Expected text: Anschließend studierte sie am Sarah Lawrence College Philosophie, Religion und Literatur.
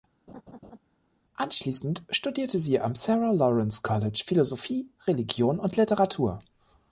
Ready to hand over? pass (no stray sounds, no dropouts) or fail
fail